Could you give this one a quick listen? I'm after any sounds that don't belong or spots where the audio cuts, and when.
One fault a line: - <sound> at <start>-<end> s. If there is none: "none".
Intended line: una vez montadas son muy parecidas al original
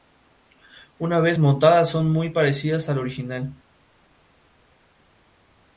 none